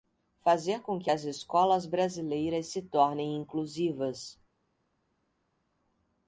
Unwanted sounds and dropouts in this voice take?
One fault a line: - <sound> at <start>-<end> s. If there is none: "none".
none